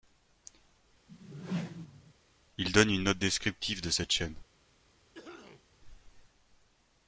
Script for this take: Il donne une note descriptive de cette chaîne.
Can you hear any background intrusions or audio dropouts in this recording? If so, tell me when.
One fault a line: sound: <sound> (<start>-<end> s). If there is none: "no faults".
sound: whoosh (1.1-2.1 s)
sound: cough (5.1-5.7 s)